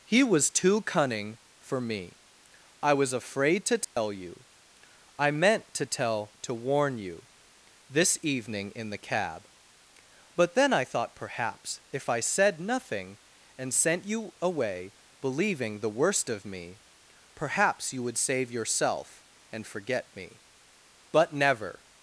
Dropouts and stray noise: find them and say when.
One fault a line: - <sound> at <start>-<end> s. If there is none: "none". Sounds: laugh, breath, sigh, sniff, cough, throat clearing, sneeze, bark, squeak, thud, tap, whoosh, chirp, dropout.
- dropout at 3.8-4.0 s